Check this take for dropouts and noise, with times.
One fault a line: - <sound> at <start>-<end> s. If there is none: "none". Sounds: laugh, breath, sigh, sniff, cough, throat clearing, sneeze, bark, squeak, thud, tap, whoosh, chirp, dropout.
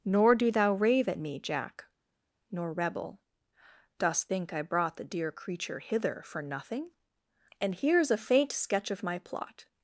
none